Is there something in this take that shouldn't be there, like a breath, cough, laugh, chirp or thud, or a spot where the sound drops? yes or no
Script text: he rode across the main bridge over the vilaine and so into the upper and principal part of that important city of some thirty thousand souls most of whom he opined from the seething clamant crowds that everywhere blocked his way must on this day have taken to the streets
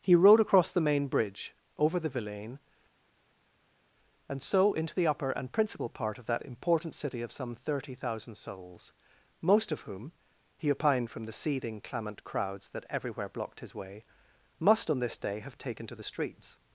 no